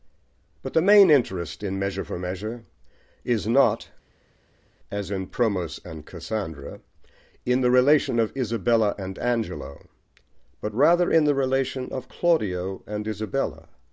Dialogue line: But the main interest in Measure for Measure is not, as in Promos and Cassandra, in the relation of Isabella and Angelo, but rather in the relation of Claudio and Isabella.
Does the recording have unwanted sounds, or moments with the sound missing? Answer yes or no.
no